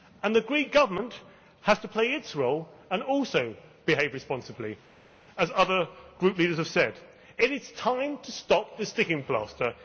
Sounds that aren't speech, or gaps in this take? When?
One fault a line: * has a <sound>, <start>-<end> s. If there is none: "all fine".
all fine